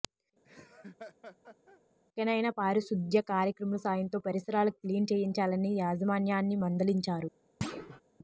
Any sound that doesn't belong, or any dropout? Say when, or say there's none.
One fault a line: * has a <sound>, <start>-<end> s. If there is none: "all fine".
* has a laugh, 0.4-1.8 s
* has a thud, 7.6-8.0 s